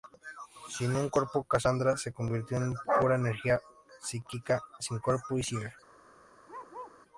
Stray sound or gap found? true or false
true